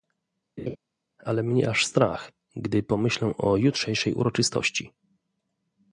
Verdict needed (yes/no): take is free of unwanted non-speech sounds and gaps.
no